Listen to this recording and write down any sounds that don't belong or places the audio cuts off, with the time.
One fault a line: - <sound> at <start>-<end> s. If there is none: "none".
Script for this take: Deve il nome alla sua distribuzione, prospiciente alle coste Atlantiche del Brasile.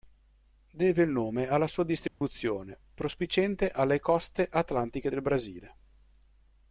- dropout at 2.1-2.2 s